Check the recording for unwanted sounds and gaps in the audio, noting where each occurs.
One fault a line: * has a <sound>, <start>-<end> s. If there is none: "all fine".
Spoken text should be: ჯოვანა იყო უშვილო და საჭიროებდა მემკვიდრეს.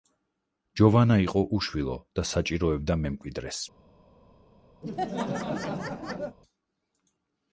* has a laugh, 4.8-6.4 s